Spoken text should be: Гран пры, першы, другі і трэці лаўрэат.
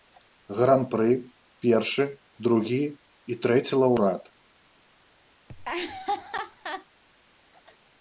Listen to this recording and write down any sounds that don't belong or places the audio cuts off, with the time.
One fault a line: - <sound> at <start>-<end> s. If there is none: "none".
- laugh at 5.5-6.9 s